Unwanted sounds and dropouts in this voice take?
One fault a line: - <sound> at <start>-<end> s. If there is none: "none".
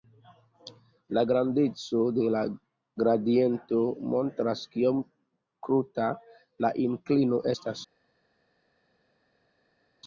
none